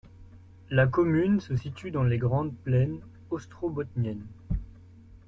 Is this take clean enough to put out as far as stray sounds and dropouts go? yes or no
yes